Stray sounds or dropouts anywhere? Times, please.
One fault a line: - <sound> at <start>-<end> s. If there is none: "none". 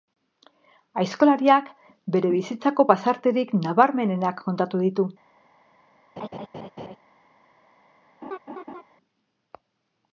- laugh at 6.2-7.0 s
- laugh at 8.2-8.8 s